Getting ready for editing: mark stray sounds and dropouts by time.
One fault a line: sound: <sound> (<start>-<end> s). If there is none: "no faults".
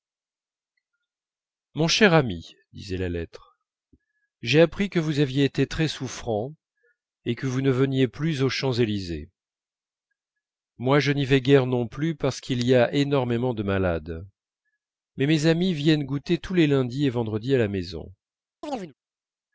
sound: chirp (18.6-18.9 s)